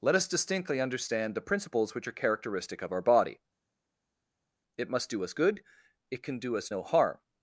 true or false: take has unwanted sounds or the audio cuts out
false